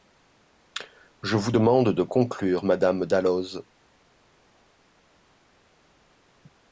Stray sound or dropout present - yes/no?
no